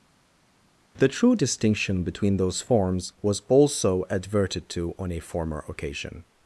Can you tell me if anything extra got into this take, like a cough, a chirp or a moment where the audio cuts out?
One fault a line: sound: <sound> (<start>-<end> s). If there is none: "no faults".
no faults